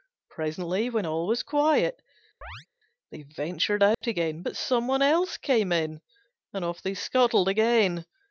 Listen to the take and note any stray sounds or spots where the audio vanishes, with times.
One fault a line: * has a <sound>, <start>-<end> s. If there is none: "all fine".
* has a chirp, 2.4-2.7 s
* has a dropout, 3.9-4.0 s